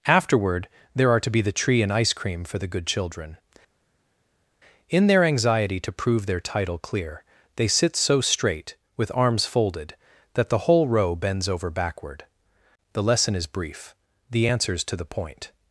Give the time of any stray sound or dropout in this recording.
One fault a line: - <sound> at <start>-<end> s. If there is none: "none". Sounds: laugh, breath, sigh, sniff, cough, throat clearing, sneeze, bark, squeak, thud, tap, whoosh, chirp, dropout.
none